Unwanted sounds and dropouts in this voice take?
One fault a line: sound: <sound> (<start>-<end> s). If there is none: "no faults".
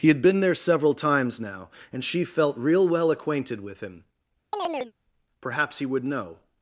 sound: chirp (4.5-4.9 s)